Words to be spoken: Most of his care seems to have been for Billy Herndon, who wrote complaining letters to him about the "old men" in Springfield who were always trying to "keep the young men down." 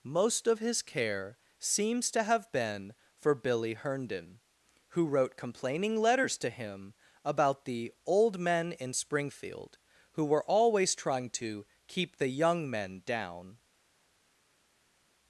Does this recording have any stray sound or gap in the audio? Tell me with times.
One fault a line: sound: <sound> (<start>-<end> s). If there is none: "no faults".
no faults